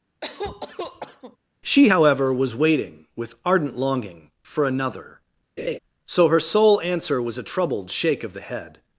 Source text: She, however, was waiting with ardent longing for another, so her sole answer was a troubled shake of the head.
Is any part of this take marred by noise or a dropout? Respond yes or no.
yes